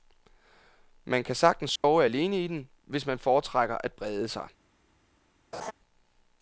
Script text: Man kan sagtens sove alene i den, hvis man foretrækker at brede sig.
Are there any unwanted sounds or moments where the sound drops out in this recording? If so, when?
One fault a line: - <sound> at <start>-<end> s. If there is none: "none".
- dropout at 1.8-1.8 s
- laugh at 5.5-5.7 s